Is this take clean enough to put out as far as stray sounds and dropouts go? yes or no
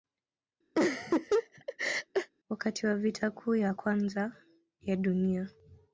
no